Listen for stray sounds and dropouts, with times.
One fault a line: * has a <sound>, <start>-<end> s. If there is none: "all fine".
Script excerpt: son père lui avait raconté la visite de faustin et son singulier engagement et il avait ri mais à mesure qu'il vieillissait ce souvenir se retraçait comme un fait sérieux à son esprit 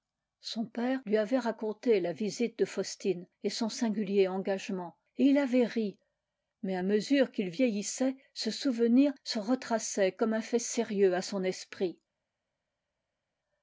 all fine